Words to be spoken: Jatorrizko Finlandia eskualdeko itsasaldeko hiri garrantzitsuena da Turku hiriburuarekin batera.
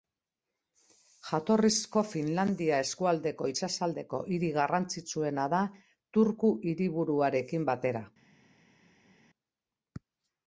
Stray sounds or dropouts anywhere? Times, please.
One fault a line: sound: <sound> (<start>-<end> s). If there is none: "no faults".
no faults